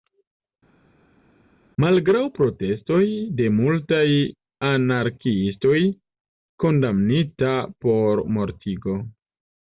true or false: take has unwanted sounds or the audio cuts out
false